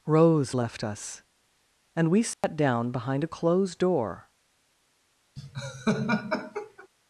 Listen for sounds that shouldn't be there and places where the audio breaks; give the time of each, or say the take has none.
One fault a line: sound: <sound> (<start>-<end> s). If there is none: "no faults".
sound: dropout (2.3-2.4 s)
sound: laugh (5.4-6.9 s)